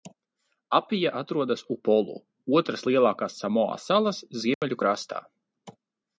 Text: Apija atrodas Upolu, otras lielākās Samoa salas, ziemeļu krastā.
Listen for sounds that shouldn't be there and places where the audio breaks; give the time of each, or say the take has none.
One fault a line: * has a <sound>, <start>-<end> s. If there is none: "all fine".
* has a dropout, 4.5-4.6 s